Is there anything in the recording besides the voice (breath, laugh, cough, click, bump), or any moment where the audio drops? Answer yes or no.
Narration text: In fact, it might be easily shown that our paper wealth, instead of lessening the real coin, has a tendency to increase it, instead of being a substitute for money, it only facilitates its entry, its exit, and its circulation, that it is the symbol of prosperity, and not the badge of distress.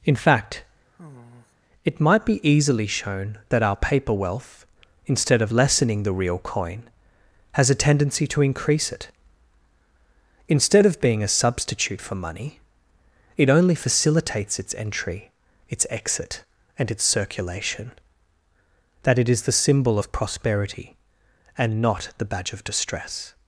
yes